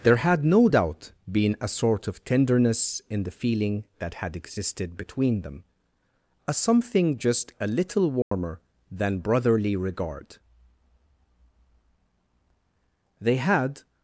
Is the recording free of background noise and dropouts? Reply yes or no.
no